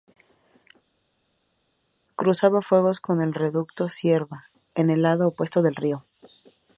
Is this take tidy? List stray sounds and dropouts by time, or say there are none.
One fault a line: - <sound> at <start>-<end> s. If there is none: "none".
none